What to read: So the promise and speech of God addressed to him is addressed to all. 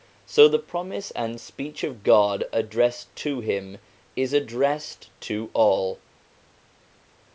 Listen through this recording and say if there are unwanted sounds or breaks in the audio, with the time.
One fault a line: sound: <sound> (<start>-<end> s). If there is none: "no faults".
no faults